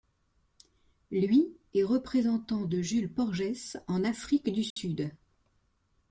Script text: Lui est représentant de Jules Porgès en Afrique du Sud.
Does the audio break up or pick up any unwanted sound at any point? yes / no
yes